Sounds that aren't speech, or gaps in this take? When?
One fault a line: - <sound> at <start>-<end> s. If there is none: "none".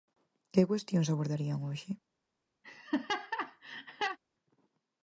- laugh at 2.6-4.2 s